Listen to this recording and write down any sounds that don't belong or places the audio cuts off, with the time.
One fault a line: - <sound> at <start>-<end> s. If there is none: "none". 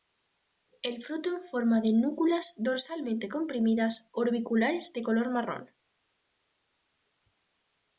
none